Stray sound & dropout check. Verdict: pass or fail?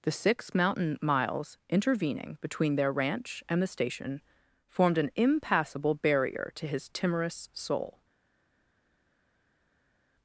pass